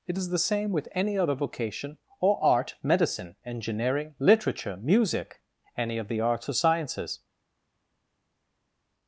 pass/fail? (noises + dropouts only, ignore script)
pass